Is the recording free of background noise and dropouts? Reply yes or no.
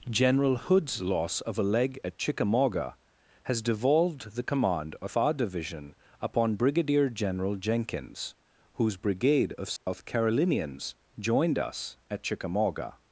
no